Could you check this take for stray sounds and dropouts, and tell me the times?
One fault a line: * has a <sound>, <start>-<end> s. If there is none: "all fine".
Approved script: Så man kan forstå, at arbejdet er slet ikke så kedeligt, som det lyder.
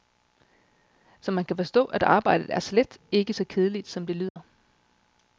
* has a dropout, 4.3-4.4 s